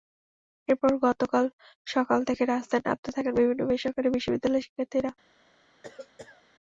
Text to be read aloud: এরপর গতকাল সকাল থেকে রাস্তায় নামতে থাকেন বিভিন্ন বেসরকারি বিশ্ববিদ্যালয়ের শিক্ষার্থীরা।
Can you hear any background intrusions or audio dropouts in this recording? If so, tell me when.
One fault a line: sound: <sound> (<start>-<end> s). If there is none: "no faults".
sound: cough (5.8-6.4 s)